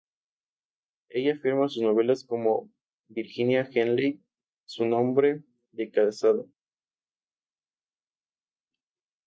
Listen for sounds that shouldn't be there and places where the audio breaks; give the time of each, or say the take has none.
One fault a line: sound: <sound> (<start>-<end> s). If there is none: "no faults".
no faults